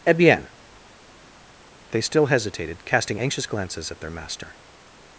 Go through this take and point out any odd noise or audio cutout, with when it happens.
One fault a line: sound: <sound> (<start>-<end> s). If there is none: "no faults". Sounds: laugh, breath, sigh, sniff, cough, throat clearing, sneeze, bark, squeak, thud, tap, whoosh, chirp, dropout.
no faults